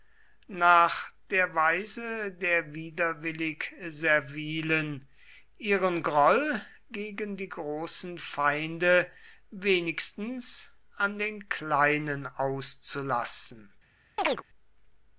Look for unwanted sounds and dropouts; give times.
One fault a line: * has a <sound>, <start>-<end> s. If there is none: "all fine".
* has a chirp, 14.2-14.4 s